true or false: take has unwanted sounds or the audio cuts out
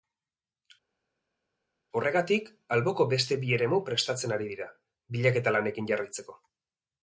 false